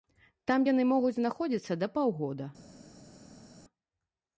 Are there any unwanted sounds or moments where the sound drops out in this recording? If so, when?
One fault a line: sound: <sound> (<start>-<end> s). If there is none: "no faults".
no faults